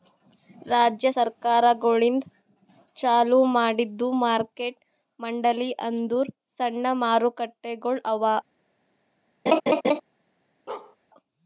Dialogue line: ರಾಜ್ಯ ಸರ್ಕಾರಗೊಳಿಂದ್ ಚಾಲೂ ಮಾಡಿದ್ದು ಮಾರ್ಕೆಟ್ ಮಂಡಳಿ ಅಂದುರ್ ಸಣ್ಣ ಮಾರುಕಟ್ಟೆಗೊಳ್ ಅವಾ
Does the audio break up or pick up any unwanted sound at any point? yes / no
yes